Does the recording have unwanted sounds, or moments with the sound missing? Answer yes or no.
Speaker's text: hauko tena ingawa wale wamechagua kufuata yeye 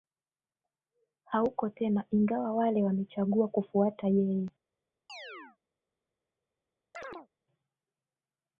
yes